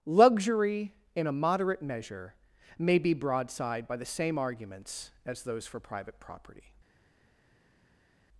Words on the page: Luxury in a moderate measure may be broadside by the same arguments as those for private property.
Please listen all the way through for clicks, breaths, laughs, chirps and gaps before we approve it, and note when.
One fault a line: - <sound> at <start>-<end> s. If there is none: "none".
none